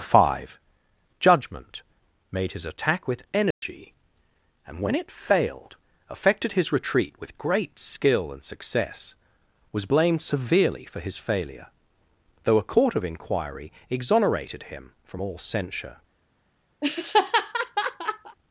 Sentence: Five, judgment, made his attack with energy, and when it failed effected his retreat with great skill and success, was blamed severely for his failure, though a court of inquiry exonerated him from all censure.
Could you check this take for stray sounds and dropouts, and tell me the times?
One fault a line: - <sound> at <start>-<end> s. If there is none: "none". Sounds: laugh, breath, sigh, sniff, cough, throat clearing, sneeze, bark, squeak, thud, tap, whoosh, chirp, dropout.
- dropout at 3.5-3.6 s
- laugh at 16.8-18.4 s